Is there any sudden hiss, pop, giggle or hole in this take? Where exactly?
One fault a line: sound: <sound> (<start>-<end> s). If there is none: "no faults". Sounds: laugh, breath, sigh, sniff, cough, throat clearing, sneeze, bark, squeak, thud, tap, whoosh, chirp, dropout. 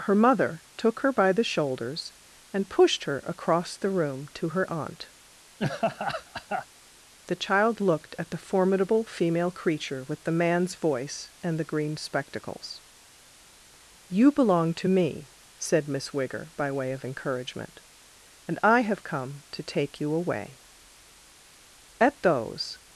sound: laugh (5.6-6.7 s)